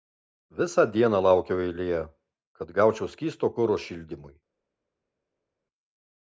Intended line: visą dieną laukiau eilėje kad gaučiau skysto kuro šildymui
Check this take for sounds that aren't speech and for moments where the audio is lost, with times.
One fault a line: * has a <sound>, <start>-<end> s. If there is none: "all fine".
all fine